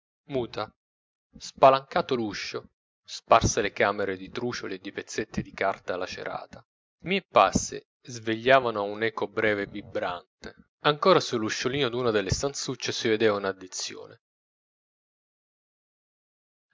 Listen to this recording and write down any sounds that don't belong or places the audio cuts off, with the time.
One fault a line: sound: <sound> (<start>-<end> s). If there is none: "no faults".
no faults